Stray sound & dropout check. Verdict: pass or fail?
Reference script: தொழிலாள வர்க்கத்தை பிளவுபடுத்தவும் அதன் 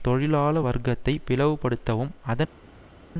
pass